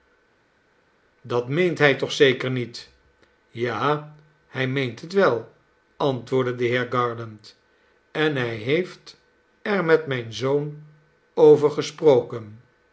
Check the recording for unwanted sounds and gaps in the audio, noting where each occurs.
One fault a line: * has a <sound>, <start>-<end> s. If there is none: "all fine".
all fine